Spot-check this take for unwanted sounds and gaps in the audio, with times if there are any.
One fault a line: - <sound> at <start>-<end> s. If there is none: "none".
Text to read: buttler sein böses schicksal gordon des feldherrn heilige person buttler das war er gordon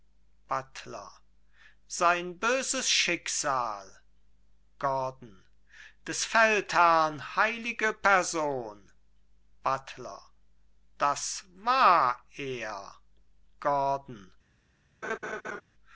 - laugh at 15.0-15.6 s